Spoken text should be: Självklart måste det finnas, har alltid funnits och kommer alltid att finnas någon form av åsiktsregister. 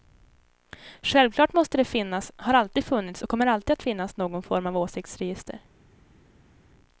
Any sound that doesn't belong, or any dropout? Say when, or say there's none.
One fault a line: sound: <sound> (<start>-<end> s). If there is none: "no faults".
no faults